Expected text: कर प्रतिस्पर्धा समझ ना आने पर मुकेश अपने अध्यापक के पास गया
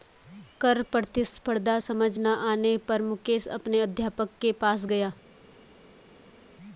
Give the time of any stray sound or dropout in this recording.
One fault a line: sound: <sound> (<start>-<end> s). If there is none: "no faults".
no faults